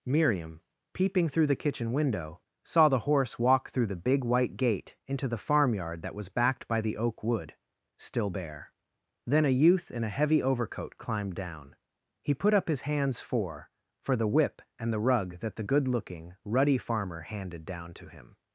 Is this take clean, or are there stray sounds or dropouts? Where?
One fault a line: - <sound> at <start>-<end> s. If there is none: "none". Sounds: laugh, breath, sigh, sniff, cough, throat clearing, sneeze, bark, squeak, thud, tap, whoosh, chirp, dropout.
none